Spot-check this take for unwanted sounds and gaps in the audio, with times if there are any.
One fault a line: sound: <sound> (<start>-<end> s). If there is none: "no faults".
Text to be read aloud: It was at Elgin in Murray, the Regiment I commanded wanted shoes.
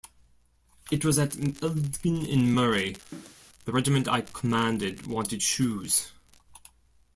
sound: cough (3.1-3.4 s)